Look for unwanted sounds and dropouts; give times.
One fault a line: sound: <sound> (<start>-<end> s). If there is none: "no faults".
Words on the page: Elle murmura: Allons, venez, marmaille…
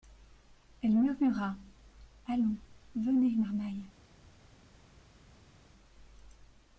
no faults